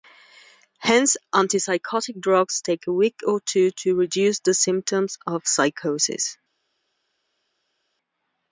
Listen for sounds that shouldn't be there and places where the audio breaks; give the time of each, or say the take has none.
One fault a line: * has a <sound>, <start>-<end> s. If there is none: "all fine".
all fine